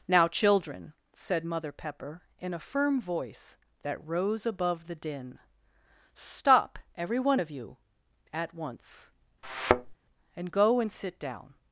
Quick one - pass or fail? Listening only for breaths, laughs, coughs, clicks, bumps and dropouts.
fail